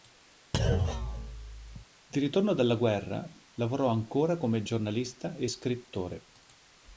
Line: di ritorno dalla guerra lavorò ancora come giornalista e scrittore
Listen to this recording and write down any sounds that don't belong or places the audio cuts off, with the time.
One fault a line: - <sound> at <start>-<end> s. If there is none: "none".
- thud at 0.5-1.8 s